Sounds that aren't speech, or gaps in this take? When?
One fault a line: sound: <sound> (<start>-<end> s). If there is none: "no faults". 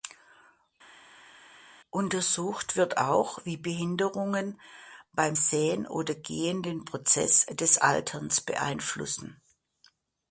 no faults